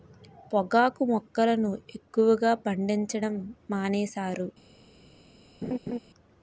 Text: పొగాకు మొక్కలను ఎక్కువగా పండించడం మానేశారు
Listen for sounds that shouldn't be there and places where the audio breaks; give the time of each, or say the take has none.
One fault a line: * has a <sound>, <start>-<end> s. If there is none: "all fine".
* has a laugh, 5.6-6.0 s